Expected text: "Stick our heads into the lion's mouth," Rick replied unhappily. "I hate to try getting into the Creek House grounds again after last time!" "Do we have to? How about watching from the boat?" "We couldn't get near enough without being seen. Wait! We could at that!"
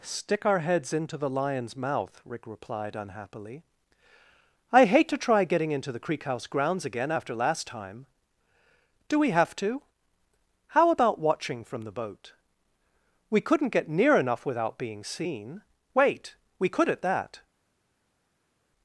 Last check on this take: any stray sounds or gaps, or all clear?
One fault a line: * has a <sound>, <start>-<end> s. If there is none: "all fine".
all fine